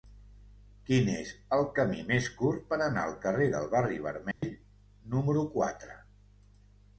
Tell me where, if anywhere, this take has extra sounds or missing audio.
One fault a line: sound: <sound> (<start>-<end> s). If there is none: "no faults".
sound: dropout (4.3-4.4 s)